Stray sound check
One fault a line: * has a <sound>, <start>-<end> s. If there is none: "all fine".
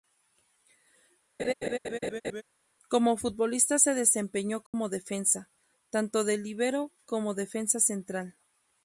* has a laugh, 1.4-2.4 s
* has a dropout, 4.7-4.7 s